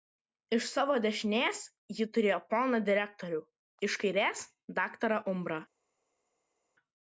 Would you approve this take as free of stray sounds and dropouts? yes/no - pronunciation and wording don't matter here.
yes